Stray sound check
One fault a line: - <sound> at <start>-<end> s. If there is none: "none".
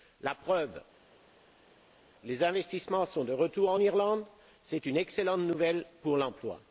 none